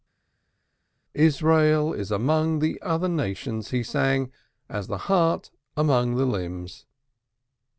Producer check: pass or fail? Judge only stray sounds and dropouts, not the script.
pass